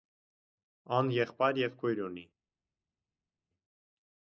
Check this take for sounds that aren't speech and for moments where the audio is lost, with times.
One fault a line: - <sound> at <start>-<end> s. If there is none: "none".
none